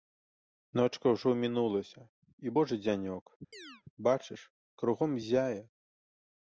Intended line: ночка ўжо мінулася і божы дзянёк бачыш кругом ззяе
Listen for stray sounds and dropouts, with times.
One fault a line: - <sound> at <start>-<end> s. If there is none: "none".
- chirp at 3.5-3.8 s